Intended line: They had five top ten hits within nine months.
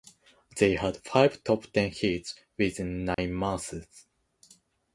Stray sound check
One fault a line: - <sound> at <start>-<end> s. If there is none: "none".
- dropout at 3.1-3.2 s